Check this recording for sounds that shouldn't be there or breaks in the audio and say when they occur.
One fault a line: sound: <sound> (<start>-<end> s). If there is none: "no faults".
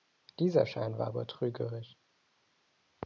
no faults